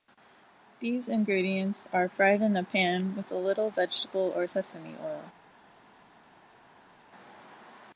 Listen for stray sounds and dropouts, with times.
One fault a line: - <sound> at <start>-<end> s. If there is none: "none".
none